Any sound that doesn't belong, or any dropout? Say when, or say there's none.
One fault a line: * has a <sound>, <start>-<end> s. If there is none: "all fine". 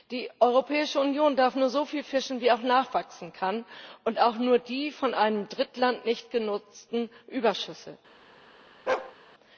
* has a bark, 8.9-9.2 s